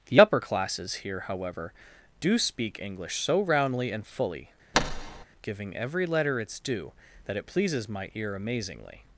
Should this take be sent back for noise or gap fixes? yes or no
yes